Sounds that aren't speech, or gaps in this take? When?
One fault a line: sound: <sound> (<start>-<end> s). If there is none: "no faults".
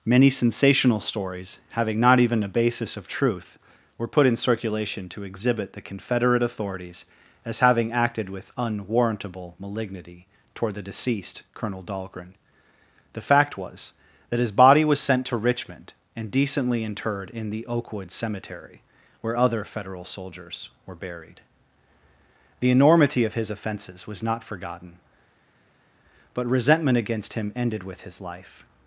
no faults